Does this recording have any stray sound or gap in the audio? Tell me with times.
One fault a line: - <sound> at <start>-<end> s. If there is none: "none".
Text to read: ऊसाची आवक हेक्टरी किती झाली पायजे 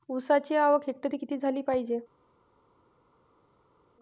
none